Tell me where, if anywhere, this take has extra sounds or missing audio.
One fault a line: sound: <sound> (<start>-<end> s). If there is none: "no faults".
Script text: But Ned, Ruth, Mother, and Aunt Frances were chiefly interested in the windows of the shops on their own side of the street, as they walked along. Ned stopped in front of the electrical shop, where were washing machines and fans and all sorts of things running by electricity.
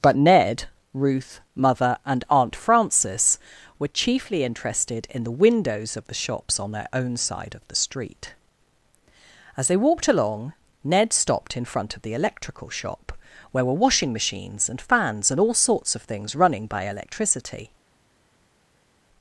no faults